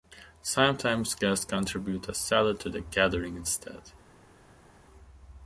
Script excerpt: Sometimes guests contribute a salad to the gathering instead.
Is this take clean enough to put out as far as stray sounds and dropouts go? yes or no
yes